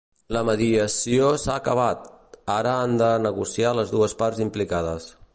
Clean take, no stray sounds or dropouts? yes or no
yes